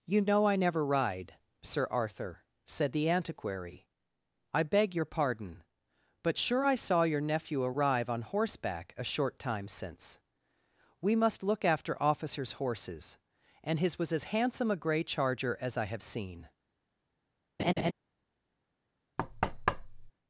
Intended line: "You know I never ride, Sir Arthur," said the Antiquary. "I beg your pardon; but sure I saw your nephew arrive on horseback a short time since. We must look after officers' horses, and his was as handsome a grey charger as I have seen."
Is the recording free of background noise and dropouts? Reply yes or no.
no